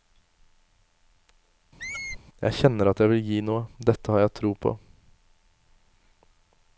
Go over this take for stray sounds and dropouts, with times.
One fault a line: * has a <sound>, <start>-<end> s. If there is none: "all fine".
* has a squeak, 1.8-2.2 s